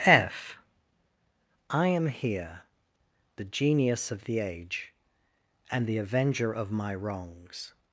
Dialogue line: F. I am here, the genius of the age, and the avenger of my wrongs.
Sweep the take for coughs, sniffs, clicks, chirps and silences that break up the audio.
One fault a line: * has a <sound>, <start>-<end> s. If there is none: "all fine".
all fine